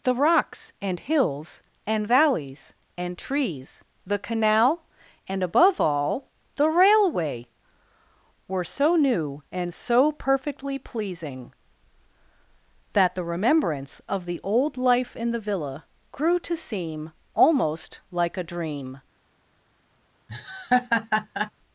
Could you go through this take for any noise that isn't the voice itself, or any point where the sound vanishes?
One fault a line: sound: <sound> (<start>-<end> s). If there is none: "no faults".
sound: laugh (20.3-21.5 s)